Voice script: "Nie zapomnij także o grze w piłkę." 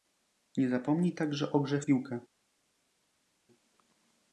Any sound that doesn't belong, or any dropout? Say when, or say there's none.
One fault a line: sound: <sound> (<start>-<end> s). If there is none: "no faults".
no faults